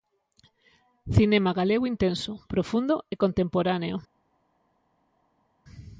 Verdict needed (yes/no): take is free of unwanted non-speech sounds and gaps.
yes